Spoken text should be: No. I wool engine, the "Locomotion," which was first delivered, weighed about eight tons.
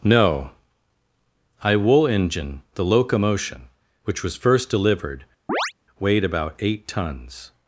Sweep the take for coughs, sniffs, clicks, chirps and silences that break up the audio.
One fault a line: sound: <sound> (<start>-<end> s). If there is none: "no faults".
sound: chirp (5.5-5.7 s)